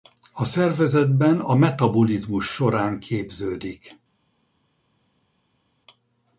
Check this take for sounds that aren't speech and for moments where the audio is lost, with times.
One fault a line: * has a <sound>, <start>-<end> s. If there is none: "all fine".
all fine